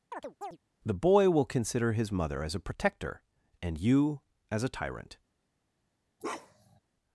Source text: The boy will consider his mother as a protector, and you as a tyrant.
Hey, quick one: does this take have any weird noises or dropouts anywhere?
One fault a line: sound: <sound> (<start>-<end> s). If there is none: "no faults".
sound: chirp (0.1-0.6 s)
sound: bark (6.2-6.8 s)